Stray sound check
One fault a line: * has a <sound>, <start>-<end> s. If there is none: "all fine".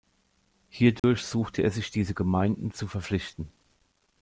* has a dropout, 1.0-1.0 s